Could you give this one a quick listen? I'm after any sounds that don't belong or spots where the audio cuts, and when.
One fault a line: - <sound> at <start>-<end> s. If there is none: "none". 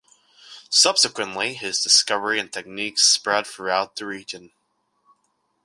none